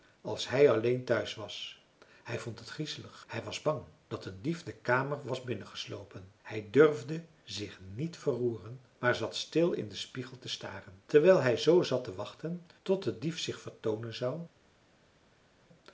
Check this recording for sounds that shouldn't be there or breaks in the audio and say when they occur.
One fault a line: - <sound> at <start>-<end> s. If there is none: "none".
none